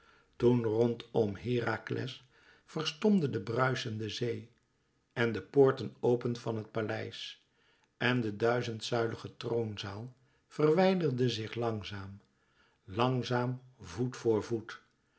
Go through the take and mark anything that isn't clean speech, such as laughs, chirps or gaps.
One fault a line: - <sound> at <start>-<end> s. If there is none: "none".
none